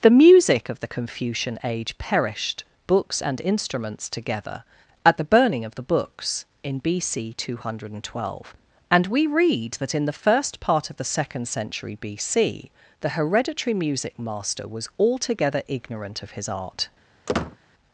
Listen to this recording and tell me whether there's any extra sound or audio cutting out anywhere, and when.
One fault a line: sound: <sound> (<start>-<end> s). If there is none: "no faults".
sound: squeak (17.3-17.6 s)